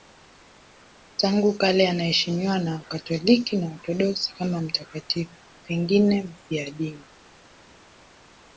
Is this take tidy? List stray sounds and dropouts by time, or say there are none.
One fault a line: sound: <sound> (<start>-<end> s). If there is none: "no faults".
no faults